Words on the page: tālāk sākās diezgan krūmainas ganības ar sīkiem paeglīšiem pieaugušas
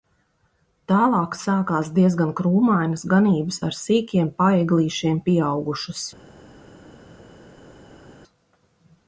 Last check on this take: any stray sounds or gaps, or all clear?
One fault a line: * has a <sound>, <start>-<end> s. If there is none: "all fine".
all fine